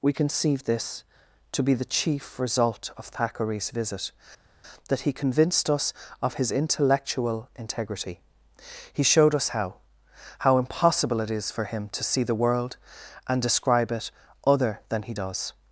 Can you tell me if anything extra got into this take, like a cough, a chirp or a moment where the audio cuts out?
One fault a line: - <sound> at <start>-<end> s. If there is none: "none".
none